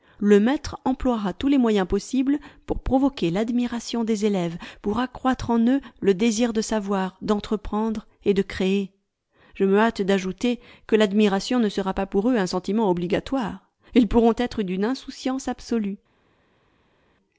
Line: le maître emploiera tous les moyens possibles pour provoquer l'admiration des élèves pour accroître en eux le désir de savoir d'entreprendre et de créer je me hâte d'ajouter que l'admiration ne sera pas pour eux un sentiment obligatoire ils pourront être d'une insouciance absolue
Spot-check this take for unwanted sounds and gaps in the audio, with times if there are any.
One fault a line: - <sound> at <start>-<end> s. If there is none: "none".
none